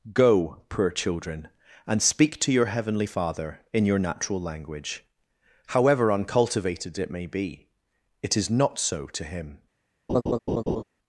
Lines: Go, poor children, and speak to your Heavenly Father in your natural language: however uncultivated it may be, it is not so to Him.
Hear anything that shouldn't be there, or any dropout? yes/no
yes